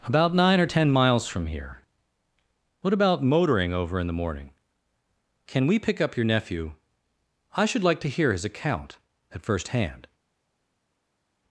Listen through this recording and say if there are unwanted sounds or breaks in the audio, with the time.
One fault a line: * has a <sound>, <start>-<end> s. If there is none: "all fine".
all fine